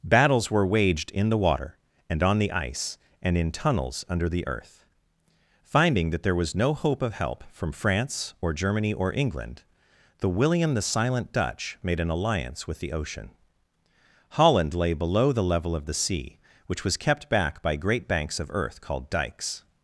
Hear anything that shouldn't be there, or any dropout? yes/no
no